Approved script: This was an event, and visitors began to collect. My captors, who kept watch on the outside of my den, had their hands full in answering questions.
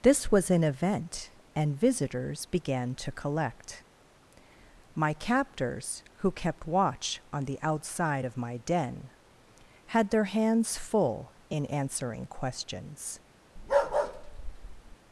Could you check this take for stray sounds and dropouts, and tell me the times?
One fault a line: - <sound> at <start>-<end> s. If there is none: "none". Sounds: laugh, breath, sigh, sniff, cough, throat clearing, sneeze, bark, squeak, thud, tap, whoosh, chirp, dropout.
- bark at 13.6-15.0 s